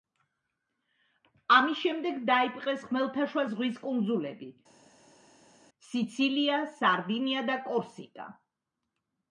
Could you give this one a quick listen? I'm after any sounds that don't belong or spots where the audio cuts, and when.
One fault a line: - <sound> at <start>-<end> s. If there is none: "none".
none